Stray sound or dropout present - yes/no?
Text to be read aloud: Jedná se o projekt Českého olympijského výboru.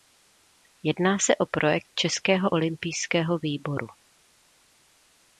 no